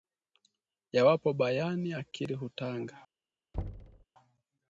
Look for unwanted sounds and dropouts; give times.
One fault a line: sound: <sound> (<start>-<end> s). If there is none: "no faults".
sound: thud (3.5-4.0 s)